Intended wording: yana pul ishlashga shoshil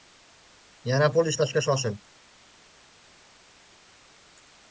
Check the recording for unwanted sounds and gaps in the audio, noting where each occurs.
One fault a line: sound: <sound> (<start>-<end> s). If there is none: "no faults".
no faults